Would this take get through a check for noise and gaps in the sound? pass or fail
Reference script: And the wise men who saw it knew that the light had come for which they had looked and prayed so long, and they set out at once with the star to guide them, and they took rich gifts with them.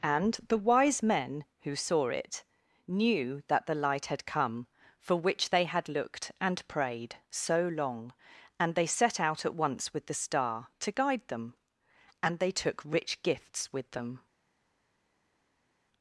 pass